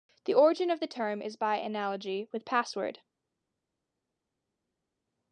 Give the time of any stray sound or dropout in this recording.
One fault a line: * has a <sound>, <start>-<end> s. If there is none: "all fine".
all fine